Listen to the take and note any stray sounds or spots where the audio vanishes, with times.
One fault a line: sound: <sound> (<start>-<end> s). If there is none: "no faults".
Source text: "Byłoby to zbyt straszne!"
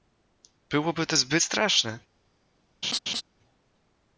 sound: laugh (2.8-3.2 s)